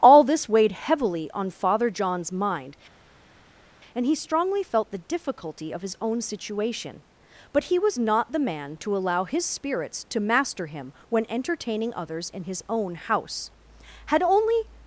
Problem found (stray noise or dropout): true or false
false